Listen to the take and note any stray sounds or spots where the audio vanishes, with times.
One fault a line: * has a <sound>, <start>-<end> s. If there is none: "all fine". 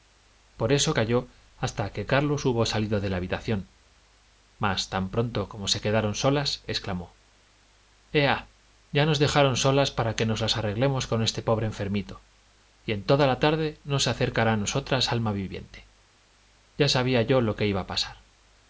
all fine